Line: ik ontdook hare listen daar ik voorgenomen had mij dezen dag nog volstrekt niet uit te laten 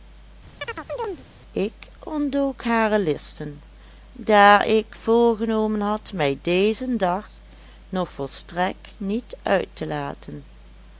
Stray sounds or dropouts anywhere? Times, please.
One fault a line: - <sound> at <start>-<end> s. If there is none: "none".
- chirp at 0.6-1.2 s